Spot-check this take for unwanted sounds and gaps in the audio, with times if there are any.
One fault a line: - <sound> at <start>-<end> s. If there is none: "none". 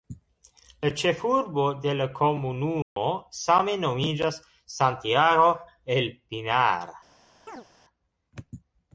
- dropout at 2.8-3.0 s
- chirp at 7.5-7.7 s